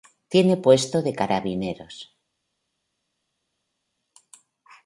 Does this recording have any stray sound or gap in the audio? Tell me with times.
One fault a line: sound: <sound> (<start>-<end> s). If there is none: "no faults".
no faults